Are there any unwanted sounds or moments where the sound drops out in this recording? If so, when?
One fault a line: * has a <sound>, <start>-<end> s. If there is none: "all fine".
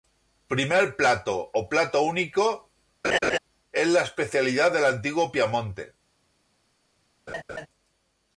* has a laugh, 3.0-3.4 s
* has a laugh, 7.3-7.7 s